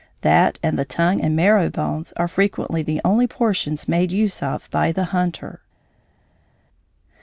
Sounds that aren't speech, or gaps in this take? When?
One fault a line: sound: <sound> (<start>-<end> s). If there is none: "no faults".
no faults